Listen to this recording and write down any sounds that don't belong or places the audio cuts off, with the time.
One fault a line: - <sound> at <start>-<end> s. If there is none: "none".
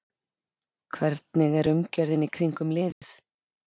- dropout at 2.9-3.0 s